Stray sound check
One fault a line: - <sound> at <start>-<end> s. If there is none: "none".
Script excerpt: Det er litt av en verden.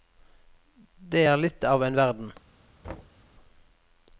- thud at 2.8-3.2 s